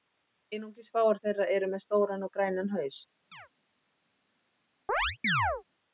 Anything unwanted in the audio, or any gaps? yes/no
yes